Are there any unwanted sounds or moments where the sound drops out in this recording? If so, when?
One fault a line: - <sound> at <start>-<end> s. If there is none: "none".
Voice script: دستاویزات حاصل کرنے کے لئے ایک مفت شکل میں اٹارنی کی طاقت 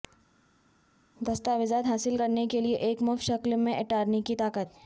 none